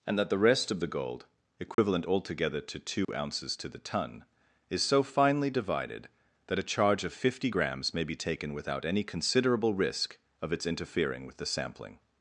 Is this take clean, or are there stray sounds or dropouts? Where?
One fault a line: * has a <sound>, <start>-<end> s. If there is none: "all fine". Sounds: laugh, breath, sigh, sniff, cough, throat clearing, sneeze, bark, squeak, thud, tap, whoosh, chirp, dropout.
* has a dropout, 1.7-1.8 s
* has a dropout, 3.0-3.1 s